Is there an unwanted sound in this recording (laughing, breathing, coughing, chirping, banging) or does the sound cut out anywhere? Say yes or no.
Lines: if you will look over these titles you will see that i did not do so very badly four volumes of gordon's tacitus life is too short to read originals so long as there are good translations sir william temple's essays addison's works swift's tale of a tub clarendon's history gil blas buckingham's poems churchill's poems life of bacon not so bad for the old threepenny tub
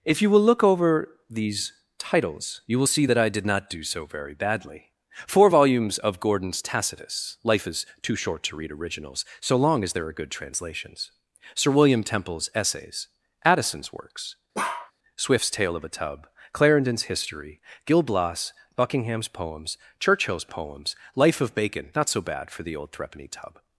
yes